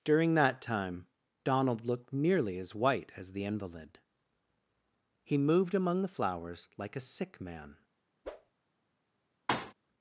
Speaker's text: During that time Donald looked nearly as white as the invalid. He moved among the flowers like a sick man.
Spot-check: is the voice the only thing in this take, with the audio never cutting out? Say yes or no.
no